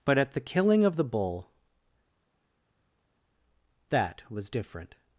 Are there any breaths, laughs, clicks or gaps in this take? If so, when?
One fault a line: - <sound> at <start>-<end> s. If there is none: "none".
none